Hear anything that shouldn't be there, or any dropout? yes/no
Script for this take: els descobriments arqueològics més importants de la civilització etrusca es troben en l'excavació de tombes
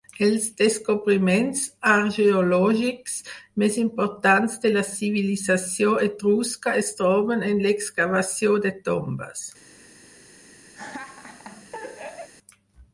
yes